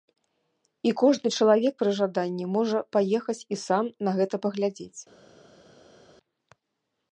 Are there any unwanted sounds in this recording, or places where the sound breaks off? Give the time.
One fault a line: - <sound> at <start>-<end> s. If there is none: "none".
none